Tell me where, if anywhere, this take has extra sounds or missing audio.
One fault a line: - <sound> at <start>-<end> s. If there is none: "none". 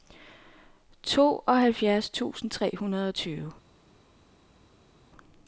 none